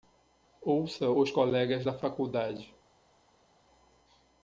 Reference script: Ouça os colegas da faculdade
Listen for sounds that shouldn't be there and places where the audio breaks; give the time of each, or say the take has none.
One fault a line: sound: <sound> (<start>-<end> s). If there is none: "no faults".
no faults